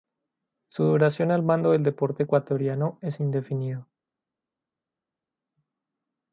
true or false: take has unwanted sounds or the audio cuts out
false